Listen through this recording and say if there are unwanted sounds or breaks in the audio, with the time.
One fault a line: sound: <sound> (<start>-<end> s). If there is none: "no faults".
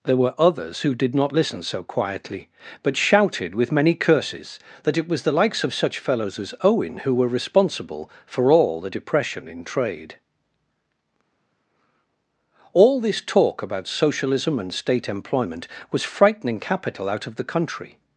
no faults